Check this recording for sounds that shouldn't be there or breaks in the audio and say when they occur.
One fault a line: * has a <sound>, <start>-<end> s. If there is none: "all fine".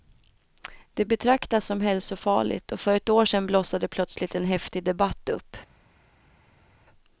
all fine